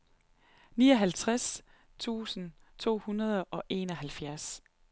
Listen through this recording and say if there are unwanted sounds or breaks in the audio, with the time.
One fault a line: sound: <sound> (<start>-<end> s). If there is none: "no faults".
no faults